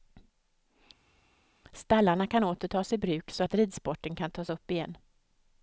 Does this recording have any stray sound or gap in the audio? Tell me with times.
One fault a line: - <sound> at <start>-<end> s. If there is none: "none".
none